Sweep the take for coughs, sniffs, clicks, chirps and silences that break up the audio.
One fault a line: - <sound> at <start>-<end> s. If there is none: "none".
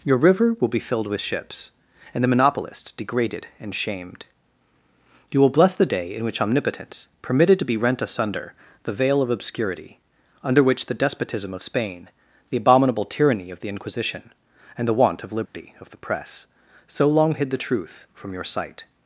- dropout at 15.5-15.5 s